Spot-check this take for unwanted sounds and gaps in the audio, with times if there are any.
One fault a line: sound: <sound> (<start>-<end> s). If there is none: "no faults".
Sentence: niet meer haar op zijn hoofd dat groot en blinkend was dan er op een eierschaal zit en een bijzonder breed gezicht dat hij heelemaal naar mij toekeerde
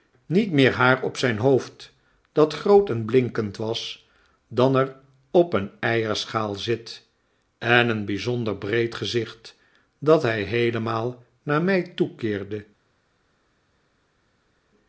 no faults